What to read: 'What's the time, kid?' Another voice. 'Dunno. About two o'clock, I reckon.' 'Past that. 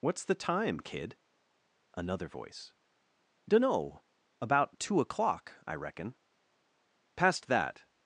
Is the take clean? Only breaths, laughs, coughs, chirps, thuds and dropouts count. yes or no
yes